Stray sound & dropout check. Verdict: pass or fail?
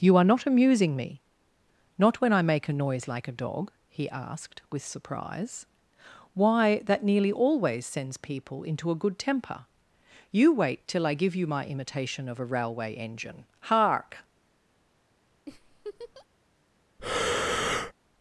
fail